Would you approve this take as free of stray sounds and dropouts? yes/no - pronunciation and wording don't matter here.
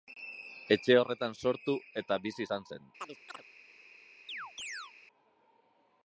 no